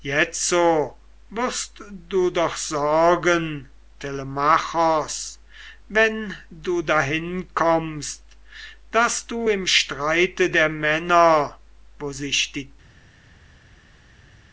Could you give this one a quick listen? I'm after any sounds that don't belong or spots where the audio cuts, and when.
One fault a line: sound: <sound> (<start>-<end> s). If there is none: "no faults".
no faults